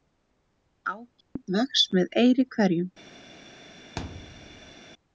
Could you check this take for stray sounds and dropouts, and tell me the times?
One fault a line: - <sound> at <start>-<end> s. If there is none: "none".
- dropout at 1.2-1.4 s
- thud at 4.0-4.8 s